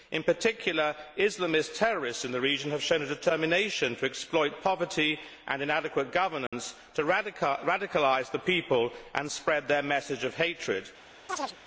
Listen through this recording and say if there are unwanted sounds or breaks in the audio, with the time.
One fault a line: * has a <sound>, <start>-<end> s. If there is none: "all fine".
* has a dropout, 6.5-6.5 s
* has a chirp, 11.3-11.6 s